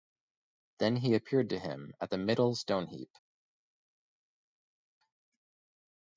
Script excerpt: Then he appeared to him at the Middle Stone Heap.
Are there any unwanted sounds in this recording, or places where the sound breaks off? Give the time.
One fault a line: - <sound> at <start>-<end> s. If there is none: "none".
none